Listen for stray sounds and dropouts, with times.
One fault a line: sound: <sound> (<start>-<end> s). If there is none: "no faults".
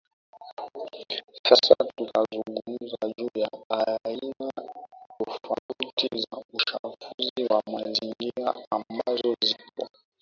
sound: dropout (5.6-5.7 s)